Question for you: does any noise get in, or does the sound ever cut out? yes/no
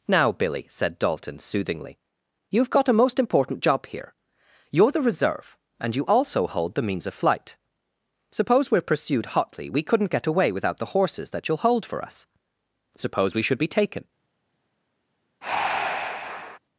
yes